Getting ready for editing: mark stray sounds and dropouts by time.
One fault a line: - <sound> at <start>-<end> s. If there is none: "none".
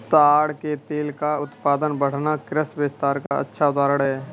- dropout at 3.3-3.3 s